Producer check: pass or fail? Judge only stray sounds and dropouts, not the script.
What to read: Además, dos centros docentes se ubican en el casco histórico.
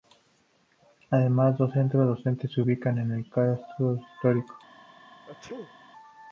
fail